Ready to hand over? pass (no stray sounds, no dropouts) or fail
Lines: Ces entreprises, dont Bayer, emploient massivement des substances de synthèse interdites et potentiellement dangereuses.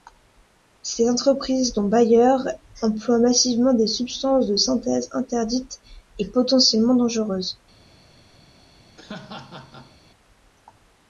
fail